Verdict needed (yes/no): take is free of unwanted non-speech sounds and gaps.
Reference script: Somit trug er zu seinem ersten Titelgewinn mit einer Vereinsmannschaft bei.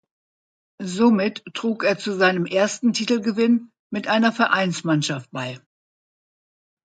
yes